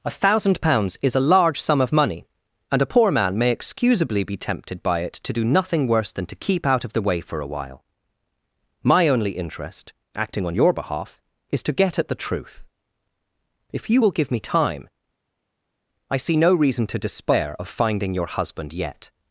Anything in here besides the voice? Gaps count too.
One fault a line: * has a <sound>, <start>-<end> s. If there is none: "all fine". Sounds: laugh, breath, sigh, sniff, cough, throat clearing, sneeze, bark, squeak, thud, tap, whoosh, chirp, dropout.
all fine